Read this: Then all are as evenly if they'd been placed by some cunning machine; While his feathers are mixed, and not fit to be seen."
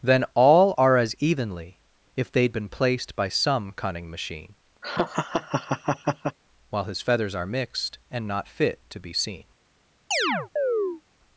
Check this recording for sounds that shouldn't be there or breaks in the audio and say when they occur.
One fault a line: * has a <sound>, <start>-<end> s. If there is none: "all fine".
* has a laugh, 4.8-6.4 s
* has a chirp, 10.1-11.0 s